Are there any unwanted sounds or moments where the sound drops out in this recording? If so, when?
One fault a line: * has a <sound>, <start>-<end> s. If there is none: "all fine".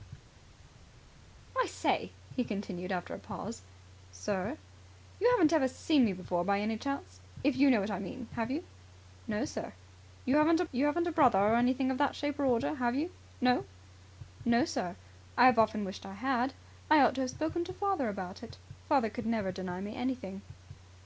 all fine